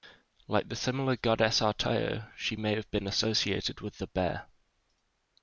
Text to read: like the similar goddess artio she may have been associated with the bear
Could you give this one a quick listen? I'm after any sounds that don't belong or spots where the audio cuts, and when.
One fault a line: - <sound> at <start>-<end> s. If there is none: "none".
none